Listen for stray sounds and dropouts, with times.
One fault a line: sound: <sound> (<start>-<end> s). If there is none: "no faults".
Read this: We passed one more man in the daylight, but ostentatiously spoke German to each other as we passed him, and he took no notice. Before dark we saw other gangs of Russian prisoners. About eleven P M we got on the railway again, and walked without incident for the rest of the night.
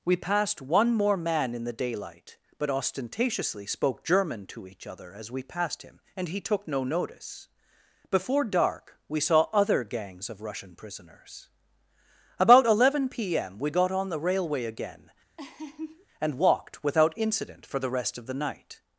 sound: laugh (15.4-16.1 s)